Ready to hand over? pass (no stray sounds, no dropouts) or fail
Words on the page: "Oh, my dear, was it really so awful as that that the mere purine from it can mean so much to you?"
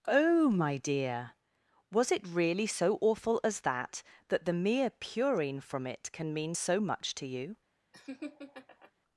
fail